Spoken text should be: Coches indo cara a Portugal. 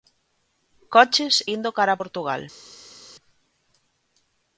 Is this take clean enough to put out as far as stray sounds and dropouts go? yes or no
yes